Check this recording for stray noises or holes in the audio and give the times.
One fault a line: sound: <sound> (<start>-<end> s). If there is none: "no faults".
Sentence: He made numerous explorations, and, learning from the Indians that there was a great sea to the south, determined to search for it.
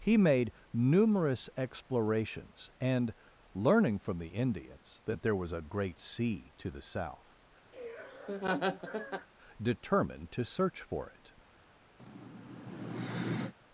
sound: laugh (7.7-9.3 s)
sound: sigh (12.0-13.5 s)